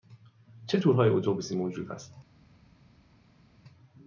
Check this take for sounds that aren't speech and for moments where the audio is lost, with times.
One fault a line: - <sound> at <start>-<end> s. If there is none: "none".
none